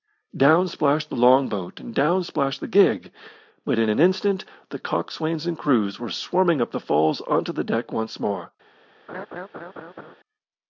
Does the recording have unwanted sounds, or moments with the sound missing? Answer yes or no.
yes